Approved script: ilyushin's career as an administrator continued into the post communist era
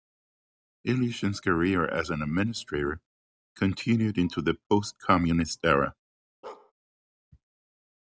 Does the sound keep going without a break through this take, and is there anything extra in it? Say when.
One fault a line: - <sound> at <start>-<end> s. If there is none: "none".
- bark at 6.4-6.7 s